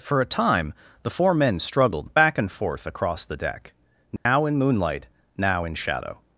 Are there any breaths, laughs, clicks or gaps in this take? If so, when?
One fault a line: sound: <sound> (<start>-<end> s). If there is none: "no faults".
sound: dropout (4.2-4.3 s)